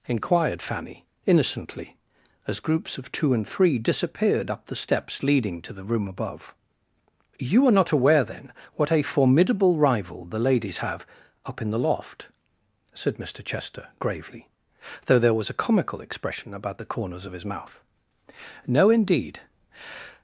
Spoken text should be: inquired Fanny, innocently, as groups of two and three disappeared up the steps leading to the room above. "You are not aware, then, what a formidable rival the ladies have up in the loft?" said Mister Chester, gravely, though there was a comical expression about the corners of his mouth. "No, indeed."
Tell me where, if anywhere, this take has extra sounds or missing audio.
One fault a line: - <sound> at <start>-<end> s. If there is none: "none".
none